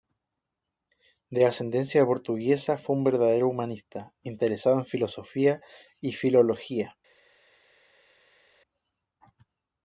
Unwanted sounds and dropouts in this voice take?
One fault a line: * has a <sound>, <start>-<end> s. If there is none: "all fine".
all fine